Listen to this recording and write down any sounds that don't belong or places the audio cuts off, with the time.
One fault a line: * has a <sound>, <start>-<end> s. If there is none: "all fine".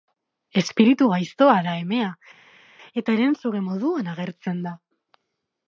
all fine